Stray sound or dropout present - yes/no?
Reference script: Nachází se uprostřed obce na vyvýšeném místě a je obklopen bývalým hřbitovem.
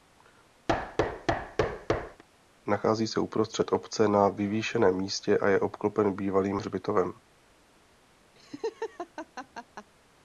yes